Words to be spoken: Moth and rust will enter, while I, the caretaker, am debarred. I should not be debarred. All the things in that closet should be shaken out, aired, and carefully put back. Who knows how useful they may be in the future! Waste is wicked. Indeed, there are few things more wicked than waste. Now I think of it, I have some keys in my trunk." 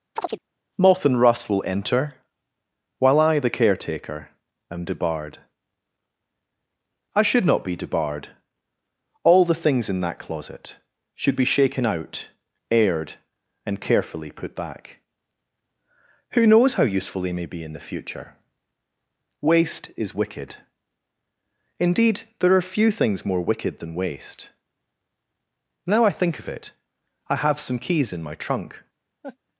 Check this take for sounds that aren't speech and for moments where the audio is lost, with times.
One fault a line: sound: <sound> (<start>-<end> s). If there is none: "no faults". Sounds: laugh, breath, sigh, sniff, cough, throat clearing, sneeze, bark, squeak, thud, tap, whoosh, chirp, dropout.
sound: chirp (0.2-0.4 s)
sound: laugh (29.2-29.4 s)